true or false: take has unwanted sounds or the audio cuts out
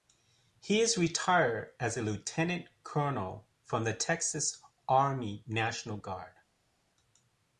false